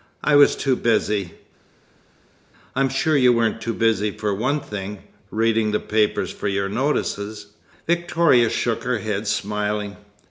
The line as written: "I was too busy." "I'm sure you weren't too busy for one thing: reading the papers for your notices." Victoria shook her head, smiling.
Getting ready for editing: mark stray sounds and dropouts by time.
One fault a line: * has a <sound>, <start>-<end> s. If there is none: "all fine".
all fine